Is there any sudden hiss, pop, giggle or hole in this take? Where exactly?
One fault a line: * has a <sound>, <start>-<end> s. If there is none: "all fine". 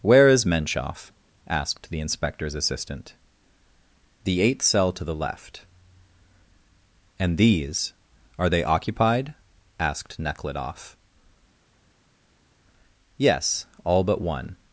all fine